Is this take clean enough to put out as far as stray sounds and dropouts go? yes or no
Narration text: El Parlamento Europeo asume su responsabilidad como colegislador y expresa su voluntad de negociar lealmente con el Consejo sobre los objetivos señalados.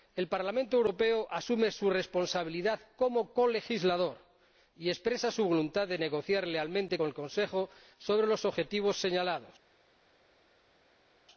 yes